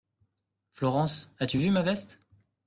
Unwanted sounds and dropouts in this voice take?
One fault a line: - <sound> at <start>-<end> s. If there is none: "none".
none